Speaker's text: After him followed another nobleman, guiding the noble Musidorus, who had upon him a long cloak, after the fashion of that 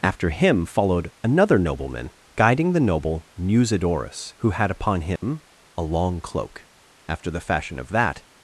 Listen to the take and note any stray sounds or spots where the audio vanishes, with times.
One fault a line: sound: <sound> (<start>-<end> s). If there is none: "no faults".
sound: dropout (5.2-5.2 s)